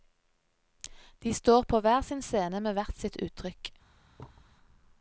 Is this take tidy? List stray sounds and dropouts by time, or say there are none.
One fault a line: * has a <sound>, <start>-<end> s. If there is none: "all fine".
* has a thud, 4.2-4.6 s